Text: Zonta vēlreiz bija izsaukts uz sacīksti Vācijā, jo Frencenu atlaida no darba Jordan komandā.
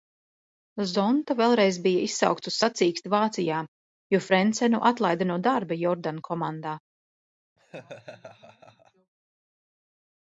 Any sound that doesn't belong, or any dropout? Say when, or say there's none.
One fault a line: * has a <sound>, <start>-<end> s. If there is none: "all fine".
* has a laugh, 7.6-9.1 s